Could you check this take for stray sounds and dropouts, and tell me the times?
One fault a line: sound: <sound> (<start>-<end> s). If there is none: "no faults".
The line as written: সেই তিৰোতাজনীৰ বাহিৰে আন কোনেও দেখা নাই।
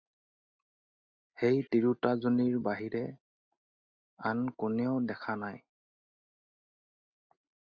no faults